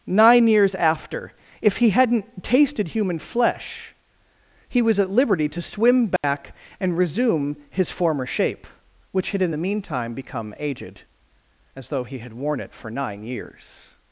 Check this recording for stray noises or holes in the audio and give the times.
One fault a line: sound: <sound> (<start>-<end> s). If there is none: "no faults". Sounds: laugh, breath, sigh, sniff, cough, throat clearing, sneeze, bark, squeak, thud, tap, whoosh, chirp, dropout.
sound: dropout (6.2-6.2 s)